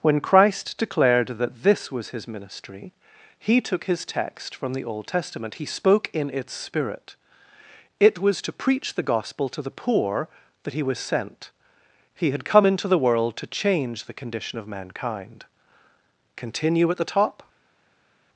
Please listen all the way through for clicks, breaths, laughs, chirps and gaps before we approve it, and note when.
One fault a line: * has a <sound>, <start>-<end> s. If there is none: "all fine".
all fine